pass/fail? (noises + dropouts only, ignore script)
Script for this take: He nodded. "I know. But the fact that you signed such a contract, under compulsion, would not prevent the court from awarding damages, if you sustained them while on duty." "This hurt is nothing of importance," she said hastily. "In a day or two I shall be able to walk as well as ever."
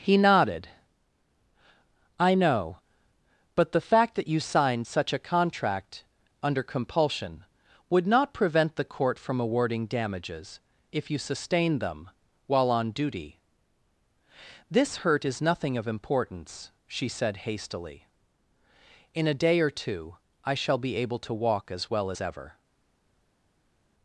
pass